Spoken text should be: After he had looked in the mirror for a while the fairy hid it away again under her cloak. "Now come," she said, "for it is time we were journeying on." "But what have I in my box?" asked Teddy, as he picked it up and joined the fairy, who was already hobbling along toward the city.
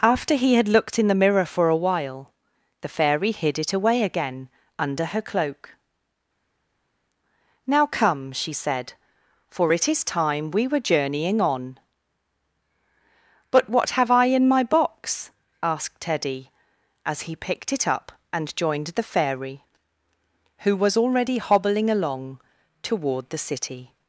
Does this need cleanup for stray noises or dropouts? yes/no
no